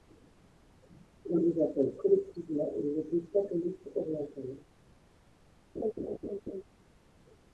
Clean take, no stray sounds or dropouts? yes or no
no